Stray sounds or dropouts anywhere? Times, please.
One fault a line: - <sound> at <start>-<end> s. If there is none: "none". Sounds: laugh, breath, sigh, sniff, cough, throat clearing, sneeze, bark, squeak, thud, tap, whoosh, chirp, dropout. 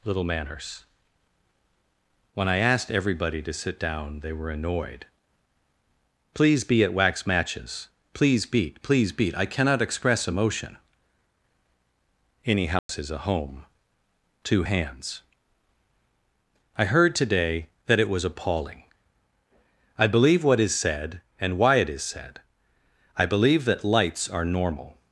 - dropout at 12.8-12.9 s